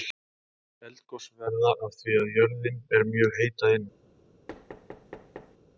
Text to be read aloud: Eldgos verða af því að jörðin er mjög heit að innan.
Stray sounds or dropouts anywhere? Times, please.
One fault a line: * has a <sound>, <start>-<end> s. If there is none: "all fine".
* has a thud, 4.5-5.6 s